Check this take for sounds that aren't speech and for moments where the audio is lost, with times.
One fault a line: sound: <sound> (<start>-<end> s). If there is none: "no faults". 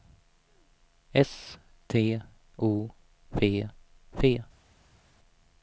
no faults